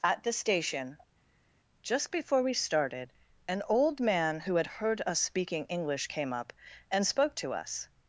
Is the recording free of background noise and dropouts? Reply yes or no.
yes